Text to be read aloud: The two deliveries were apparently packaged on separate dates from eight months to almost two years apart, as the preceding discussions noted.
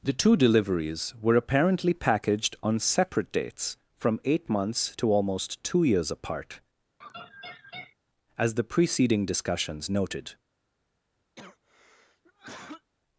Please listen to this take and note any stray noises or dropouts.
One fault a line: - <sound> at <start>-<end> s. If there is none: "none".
- laugh at 7.0-8.0 s
- cough at 11.4-12.9 s